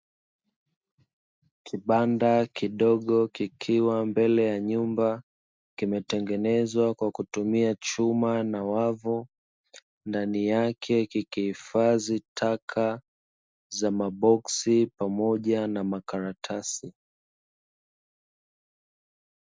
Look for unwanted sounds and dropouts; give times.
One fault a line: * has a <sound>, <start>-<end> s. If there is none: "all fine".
all fine